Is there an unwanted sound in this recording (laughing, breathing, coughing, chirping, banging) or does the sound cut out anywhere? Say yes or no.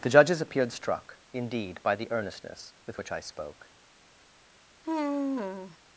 yes